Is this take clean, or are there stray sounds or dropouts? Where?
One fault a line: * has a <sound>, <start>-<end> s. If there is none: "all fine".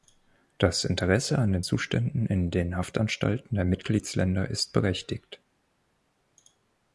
all fine